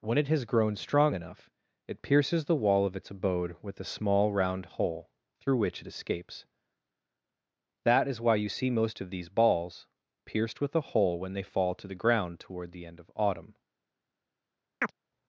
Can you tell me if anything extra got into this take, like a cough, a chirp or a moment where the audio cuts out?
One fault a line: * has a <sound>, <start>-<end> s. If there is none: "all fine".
* has a chirp, 14.8-14.9 s